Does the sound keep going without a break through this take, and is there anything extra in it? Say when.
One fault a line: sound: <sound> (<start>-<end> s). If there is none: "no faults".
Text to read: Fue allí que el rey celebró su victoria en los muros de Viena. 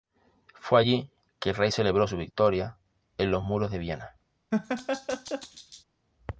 sound: laugh (4.5-5.8 s)